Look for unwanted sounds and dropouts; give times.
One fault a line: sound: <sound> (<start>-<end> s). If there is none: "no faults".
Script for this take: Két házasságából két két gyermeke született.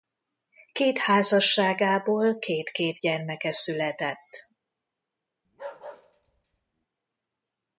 sound: bark (5.4-6.9 s)